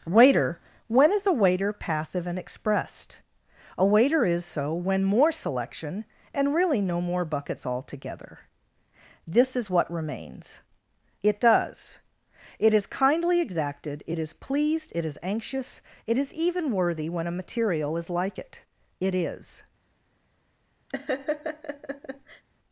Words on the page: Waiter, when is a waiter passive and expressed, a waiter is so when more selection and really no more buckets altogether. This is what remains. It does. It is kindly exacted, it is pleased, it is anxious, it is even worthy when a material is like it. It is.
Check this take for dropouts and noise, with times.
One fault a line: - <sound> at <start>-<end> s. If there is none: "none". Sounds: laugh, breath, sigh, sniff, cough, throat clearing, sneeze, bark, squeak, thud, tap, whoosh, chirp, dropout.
- laugh at 20.9-22.4 s